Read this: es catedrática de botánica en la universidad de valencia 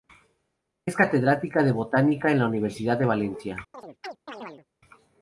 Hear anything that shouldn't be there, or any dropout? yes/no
yes